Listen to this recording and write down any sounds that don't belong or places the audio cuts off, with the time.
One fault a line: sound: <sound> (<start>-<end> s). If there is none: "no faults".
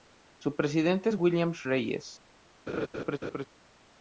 sound: laugh (2.7-3.5 s)